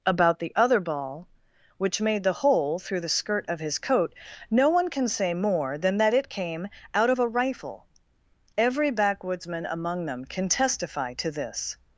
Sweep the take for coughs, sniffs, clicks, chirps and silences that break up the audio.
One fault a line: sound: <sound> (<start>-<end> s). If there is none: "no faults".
no faults